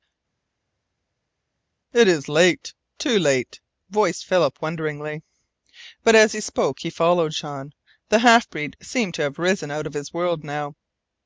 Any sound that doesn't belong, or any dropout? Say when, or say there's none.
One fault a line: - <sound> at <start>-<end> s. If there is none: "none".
none